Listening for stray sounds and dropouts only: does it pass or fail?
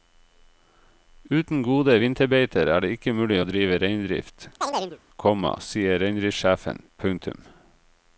fail